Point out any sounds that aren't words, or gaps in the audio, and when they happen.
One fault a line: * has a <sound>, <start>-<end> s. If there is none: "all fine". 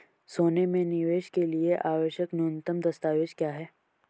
all fine